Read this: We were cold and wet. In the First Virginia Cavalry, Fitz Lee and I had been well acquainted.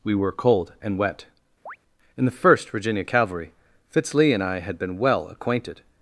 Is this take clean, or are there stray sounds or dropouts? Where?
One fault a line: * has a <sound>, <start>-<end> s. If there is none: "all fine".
* has a chirp, 1.7-1.8 s